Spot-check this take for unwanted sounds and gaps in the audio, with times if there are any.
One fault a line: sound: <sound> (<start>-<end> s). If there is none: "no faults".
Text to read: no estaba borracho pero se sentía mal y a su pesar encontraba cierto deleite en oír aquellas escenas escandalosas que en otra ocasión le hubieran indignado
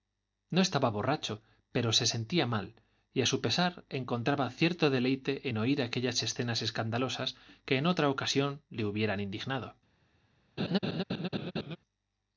sound: laugh (10.6-11.8 s)